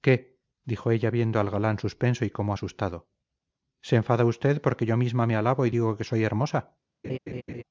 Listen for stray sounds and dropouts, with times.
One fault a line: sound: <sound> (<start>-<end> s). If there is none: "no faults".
sound: laugh (7.0-7.6 s)